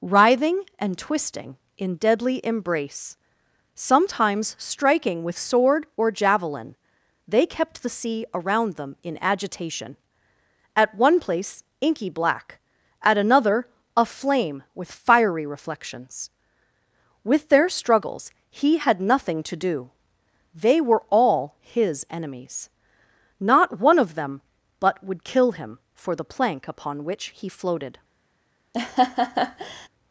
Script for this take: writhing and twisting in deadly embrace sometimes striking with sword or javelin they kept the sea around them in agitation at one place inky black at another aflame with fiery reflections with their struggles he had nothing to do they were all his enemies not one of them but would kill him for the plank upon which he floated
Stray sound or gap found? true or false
true